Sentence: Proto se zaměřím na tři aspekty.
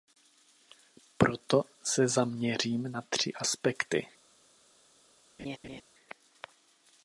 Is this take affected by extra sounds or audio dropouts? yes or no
yes